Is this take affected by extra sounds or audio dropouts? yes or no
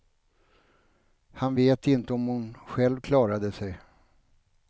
no